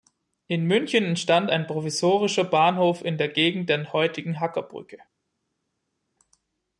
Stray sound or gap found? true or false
false